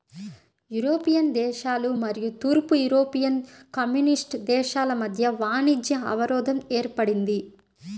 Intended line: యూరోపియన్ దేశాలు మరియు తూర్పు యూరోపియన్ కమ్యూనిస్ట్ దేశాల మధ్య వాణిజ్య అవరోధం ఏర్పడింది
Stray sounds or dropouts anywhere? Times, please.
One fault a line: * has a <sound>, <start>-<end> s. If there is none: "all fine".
all fine